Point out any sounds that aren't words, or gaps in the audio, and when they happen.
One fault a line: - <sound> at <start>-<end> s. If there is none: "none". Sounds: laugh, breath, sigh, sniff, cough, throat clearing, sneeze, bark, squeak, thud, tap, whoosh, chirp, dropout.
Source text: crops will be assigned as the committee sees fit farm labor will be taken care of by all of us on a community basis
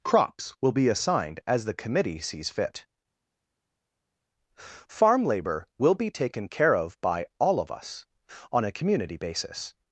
none